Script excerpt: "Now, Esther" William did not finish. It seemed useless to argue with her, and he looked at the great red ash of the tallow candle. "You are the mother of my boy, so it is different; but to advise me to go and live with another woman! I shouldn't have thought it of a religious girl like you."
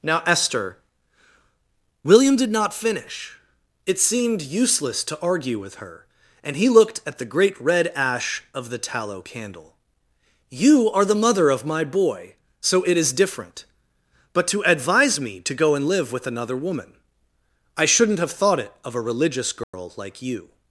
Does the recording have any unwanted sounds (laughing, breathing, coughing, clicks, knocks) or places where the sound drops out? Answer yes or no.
yes